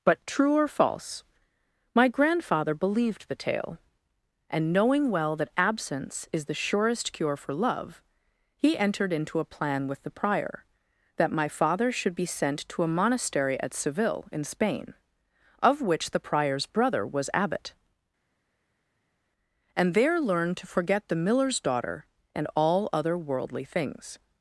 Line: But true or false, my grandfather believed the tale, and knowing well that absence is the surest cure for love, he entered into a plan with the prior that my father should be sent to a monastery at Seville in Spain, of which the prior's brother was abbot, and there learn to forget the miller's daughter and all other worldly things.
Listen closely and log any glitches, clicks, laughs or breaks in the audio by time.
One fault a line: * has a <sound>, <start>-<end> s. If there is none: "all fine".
all fine